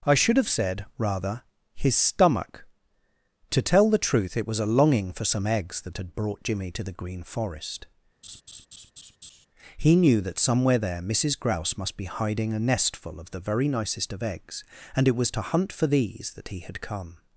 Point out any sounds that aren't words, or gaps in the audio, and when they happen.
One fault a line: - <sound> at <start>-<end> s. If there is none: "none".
- laugh at 8.2-9.5 s